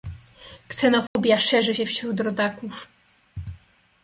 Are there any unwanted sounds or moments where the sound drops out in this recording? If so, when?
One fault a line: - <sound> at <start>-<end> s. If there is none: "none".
- dropout at 1.1-1.2 s